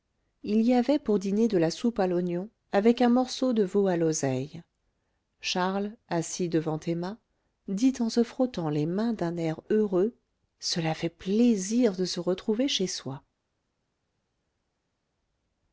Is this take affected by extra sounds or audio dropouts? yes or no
no